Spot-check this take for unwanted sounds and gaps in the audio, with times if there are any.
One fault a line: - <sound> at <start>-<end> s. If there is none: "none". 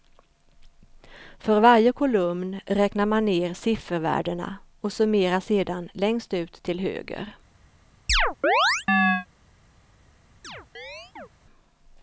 - chirp at 8.1-9.3 s
- chirp at 10.4-11.3 s